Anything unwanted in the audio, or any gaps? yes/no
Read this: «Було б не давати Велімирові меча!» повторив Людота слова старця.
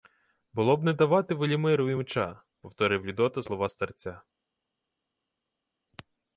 no